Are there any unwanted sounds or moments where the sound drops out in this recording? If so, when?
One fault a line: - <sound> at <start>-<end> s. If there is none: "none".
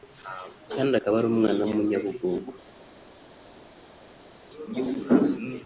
none